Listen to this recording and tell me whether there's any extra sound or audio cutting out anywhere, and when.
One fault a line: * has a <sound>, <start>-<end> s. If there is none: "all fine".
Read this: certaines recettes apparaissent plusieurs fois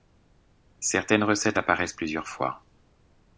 all fine